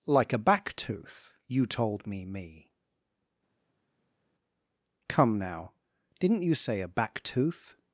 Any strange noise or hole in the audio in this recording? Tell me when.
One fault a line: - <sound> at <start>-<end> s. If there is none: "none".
none